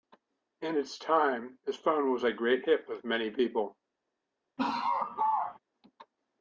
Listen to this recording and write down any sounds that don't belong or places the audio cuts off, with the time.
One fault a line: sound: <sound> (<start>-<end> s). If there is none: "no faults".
sound: laugh (4.6-5.6 s)